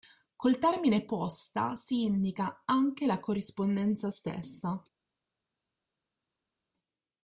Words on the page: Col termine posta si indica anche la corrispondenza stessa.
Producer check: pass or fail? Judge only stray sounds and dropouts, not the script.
pass